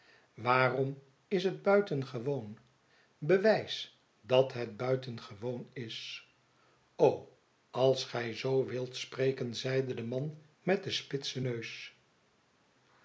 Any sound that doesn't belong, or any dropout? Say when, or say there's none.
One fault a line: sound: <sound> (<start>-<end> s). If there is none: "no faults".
no faults